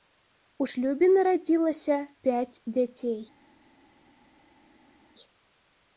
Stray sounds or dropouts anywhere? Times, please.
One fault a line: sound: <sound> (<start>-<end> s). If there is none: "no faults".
no faults